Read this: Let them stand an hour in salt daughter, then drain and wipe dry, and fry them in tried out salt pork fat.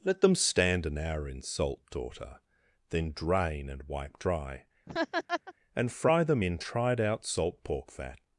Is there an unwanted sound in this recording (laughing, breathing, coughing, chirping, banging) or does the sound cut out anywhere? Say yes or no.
yes